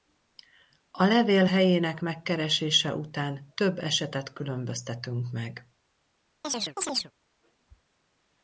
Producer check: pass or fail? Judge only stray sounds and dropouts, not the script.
fail